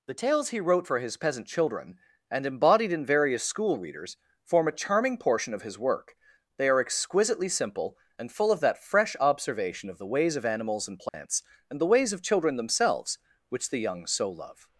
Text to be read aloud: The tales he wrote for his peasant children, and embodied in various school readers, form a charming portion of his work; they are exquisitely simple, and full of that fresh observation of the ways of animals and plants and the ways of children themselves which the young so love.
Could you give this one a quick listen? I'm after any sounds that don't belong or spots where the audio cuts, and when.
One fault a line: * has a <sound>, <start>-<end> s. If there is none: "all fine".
* has a dropout, 11.1-11.1 s